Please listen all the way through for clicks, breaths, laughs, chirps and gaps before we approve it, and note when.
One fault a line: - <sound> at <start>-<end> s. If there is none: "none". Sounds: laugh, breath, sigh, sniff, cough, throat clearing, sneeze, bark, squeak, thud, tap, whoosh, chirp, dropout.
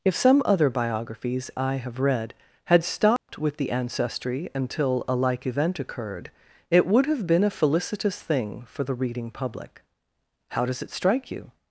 - dropout at 3.2-3.3 s